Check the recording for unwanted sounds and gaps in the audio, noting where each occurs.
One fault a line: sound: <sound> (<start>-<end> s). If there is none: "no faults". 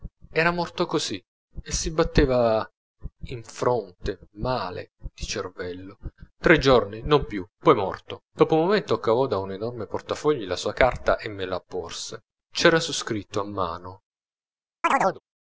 sound: chirp (14.8-15.2 s)